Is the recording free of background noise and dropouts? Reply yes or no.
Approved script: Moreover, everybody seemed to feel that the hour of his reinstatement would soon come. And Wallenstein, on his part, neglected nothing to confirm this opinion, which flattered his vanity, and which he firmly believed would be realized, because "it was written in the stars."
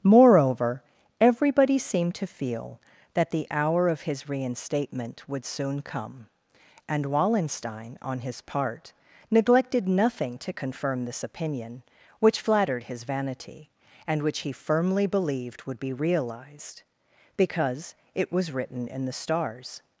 yes